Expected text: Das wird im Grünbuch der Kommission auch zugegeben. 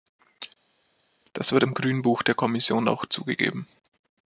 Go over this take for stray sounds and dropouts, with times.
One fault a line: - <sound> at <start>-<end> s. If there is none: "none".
none